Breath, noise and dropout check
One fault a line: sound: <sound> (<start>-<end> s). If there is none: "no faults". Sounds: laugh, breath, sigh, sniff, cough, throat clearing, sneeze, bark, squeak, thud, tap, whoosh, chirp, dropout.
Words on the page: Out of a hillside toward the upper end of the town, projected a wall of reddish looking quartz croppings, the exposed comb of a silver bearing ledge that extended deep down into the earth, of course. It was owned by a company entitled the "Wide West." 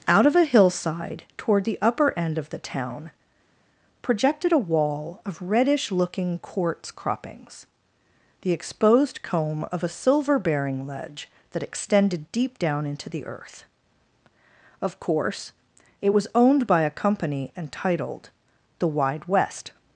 no faults